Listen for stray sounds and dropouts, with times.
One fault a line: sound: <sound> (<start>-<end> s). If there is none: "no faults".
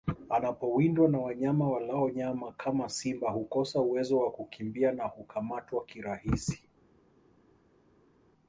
no faults